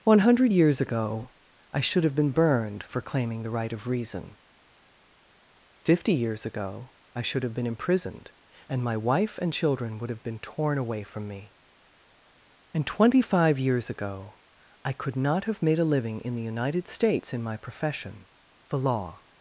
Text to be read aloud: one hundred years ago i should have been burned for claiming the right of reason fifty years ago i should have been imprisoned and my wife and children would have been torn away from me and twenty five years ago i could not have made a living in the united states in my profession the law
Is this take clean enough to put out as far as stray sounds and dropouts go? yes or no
yes